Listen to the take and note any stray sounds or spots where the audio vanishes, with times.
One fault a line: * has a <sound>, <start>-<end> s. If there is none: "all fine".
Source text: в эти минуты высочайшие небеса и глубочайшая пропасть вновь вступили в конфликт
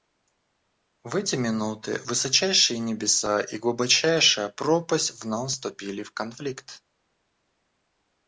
all fine